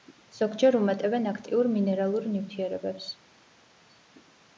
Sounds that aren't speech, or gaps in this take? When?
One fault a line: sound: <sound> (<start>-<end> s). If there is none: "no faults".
no faults